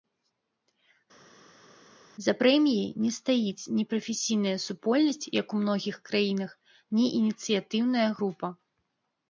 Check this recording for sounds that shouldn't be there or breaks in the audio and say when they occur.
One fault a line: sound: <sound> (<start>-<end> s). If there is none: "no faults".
no faults